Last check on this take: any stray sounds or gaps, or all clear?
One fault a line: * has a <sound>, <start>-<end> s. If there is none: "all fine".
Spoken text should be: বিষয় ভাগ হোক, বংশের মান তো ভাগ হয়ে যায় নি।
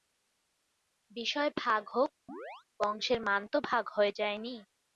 * has a chirp, 2.3-2.7 s